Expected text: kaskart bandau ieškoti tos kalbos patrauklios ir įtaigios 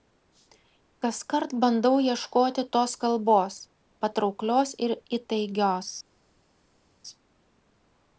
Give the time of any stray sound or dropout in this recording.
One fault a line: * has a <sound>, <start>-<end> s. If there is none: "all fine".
all fine